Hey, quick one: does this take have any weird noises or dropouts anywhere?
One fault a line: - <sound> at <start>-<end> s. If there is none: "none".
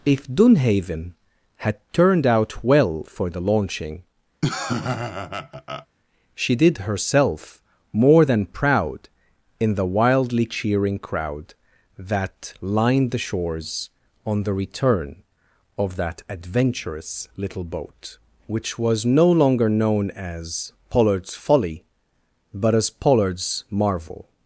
- laugh at 4.4-5.9 s